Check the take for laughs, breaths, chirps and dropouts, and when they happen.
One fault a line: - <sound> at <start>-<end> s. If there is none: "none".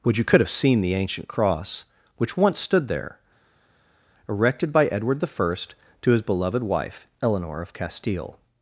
none